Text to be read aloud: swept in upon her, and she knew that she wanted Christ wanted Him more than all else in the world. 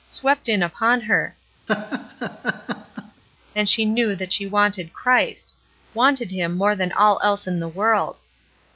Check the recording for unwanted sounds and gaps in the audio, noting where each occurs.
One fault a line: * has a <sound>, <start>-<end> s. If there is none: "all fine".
* has a laugh, 1.7-3.2 s